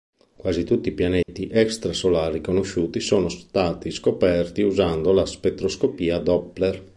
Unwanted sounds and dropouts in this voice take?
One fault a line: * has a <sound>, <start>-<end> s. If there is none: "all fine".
* has a dropout, 1.2-1.3 s